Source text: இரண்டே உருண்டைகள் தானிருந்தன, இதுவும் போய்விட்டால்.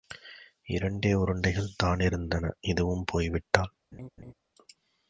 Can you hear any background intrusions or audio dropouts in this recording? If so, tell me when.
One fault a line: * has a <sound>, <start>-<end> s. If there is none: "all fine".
* has a laugh, 3.9-4.3 s